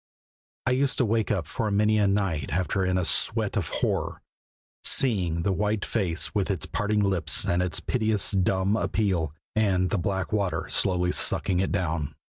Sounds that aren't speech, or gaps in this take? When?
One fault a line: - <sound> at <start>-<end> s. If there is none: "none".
none